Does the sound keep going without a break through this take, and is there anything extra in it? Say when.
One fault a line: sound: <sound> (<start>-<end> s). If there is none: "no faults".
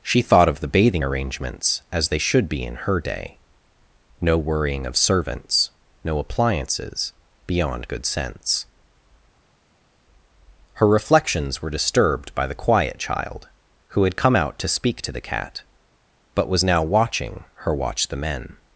no faults